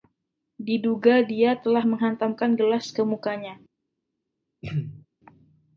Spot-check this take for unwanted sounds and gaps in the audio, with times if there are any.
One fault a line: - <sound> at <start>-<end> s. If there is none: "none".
- throat clearing at 4.6-5.1 s